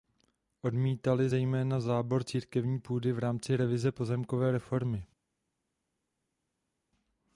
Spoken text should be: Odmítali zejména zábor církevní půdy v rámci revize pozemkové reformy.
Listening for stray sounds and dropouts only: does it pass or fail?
pass